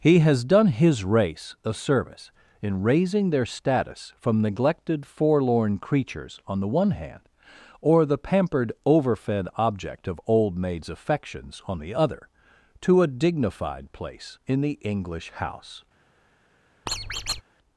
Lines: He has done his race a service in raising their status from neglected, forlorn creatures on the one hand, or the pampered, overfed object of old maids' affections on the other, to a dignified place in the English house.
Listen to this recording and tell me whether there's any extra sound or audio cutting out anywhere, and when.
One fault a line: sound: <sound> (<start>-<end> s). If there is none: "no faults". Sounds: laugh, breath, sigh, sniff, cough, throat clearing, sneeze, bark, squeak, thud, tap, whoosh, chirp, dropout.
sound: squeak (16.9-17.4 s)